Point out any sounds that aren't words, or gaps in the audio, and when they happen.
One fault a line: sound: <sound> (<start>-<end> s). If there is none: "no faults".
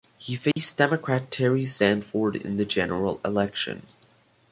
sound: dropout (0.5-0.6 s)